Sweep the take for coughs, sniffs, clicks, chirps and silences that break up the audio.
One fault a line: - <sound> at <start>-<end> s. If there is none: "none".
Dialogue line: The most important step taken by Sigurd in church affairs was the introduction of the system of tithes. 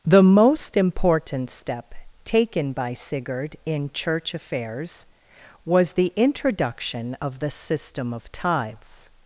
none